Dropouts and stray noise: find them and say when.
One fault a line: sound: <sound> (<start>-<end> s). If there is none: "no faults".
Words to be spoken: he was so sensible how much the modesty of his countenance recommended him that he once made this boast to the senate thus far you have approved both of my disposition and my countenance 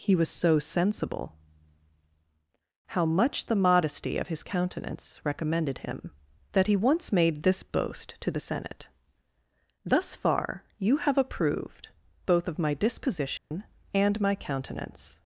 sound: dropout (13.4-13.5 s)